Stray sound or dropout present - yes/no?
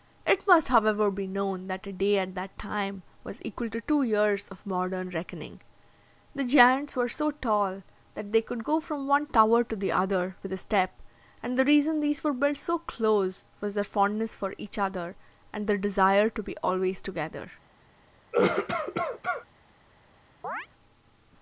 yes